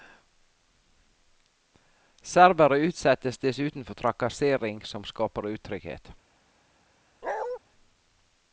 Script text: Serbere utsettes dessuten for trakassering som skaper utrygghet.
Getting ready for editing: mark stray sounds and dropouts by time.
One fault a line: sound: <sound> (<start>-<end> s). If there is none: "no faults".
sound: bark (7.2-7.6 s)